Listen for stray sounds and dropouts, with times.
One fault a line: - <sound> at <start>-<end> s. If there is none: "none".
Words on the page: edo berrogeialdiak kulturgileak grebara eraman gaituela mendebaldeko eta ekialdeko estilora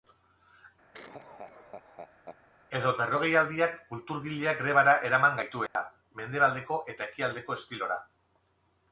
- laugh at 0.9-2.4 s
- dropout at 5.7-5.8 s